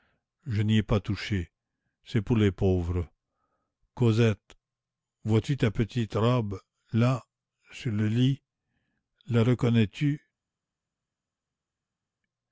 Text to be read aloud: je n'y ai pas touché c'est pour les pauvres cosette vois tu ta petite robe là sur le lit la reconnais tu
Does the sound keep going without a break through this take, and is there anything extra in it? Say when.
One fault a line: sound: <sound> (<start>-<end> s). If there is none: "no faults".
no faults